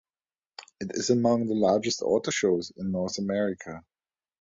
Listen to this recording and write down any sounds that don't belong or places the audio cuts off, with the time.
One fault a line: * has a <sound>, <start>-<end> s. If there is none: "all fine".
all fine